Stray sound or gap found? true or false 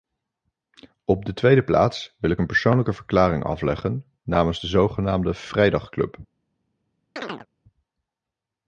true